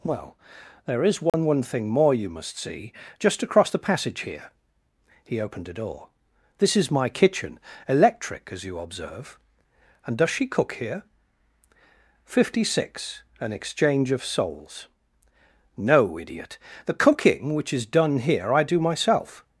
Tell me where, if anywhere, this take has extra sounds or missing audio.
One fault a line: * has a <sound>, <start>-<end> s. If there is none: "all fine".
* has a dropout, 1.3-1.3 s